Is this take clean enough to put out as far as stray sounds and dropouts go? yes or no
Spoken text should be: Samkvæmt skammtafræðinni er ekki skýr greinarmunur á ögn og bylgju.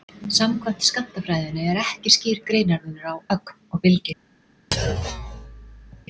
no